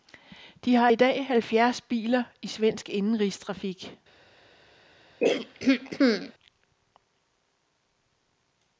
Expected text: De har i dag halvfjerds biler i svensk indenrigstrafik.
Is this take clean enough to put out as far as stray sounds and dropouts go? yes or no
no